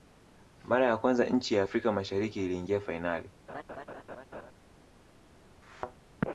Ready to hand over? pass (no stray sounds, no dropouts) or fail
fail